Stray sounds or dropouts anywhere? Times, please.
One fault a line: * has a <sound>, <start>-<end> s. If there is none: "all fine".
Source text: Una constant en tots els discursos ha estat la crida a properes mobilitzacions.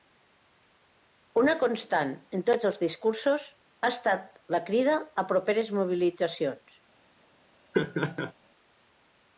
* has a laugh, 7.7-8.3 s